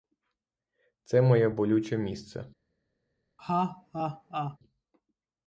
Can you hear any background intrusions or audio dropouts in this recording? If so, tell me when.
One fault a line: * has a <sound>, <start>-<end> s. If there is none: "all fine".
* has a laugh, 3.4-4.6 s